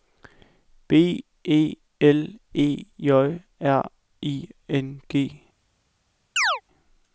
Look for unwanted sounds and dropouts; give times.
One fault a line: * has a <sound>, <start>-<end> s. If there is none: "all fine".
* has a chirp, 6.4-6.6 s